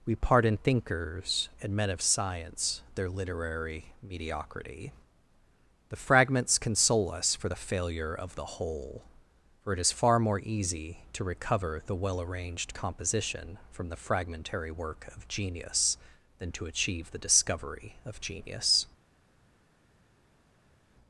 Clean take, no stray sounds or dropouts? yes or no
yes